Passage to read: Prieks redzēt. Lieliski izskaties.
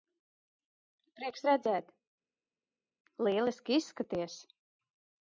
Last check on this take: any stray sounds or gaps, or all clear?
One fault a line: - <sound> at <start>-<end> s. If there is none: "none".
none